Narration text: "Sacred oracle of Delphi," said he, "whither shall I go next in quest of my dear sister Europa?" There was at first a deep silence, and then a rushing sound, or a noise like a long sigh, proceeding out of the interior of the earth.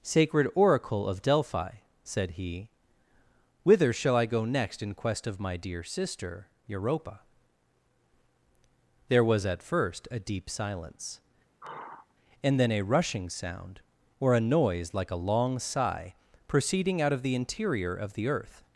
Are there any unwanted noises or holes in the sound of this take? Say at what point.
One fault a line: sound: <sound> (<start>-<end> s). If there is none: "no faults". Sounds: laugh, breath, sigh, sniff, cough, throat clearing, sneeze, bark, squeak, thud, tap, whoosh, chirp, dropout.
sound: sigh (11.6-12.1 s)